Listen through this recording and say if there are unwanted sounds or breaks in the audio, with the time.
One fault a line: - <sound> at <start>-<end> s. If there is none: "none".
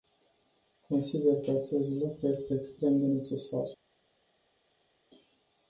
none